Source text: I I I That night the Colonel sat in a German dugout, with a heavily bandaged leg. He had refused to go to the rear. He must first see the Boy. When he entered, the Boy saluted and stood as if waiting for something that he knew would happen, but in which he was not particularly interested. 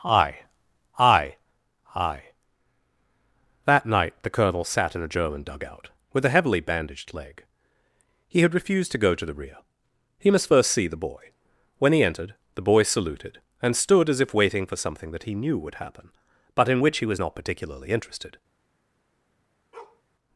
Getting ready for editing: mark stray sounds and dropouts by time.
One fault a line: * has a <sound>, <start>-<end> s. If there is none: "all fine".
* has a bark, 19.7-20.0 s